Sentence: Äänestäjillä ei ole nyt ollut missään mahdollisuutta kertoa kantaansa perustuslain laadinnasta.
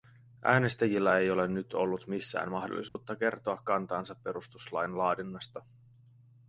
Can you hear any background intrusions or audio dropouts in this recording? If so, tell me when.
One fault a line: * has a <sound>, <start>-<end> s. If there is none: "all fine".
* has a dropout, 2.9-3.0 s